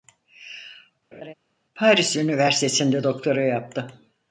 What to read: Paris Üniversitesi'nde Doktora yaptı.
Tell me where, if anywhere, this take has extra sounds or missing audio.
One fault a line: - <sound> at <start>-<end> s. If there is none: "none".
- laugh at 1.1-1.3 s